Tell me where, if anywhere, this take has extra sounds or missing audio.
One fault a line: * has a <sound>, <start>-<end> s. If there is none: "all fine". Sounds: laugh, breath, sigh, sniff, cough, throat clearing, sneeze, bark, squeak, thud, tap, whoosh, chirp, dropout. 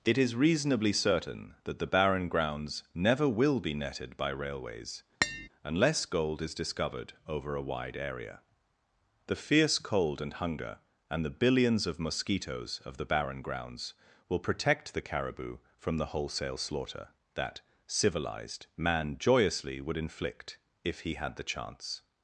* has a tap, 5.2-5.5 s